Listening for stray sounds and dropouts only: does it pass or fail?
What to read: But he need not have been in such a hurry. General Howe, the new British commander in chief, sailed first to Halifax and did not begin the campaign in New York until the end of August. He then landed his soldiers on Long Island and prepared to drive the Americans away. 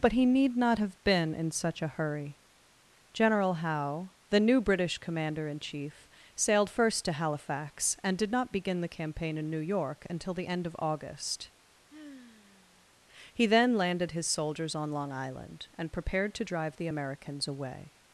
fail